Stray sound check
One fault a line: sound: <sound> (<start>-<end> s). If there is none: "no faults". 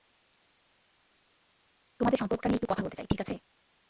no faults